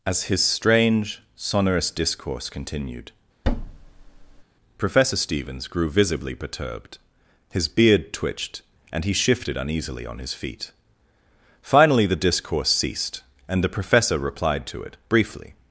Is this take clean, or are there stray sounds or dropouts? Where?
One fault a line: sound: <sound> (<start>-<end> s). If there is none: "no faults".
sound: thud (3.4-4.4 s)